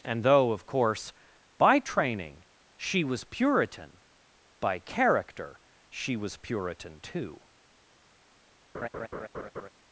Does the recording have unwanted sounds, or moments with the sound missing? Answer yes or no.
yes